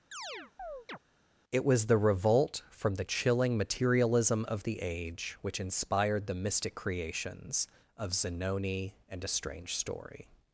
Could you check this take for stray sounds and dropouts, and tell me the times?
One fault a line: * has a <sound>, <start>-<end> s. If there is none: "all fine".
* has a chirp, 0.1-1.0 s